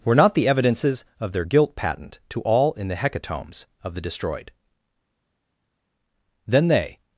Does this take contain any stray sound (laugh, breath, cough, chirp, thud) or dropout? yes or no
no